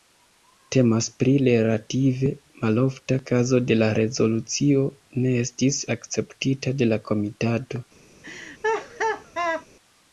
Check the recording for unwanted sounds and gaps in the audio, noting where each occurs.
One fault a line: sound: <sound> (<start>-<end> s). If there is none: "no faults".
sound: laugh (8.2-9.7 s)